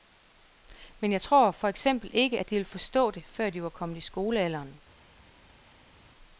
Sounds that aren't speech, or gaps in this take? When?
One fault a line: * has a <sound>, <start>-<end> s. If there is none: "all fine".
all fine